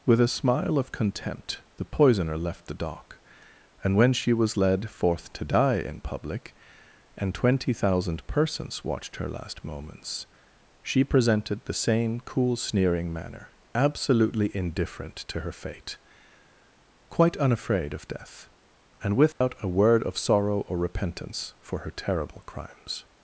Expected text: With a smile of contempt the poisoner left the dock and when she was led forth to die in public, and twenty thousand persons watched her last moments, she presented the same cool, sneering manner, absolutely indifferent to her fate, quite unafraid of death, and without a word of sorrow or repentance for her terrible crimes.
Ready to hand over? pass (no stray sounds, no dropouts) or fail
fail